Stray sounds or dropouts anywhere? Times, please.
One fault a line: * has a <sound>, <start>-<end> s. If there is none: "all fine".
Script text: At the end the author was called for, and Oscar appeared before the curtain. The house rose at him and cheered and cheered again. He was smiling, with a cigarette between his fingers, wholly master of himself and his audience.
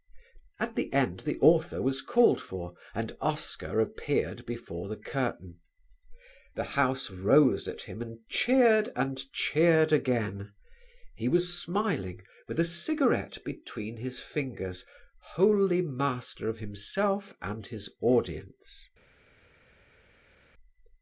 all fine